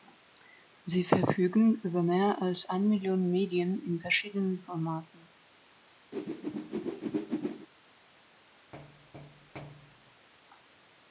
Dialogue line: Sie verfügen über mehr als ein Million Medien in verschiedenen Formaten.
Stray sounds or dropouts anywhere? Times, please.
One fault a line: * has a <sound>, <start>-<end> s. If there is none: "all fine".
* has a whoosh, 6.1-7.7 s
* has a thud, 8.7-10.3 s